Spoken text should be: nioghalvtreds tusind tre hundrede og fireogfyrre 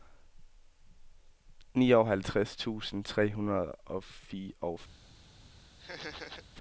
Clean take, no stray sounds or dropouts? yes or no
no